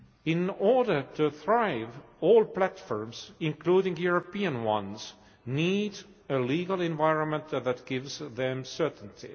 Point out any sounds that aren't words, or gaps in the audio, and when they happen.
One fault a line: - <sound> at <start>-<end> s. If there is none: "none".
none